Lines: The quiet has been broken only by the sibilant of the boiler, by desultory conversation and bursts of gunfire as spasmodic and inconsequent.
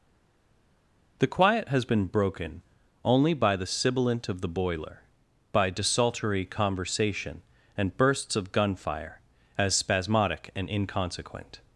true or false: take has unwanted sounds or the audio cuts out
false